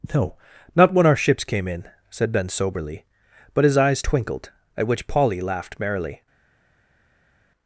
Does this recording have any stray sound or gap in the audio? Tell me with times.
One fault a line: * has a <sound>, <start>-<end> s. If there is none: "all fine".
all fine